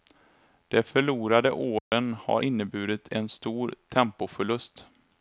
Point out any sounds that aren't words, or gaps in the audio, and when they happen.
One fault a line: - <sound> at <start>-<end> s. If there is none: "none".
- dropout at 1.8-1.9 s